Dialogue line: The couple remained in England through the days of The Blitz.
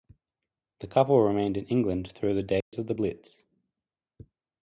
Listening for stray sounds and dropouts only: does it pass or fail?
fail